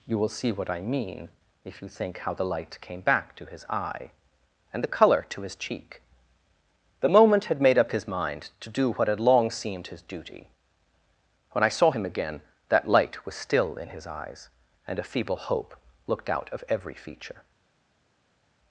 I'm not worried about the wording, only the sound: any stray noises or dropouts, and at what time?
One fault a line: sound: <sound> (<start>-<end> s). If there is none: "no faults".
no faults